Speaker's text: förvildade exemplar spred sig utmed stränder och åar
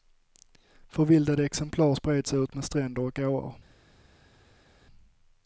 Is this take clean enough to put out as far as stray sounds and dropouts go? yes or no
yes